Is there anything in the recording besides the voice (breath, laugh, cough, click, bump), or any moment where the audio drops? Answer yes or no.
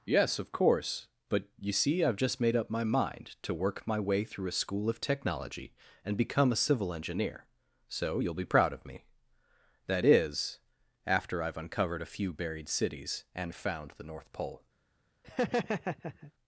yes